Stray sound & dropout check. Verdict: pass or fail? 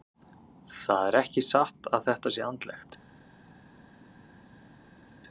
pass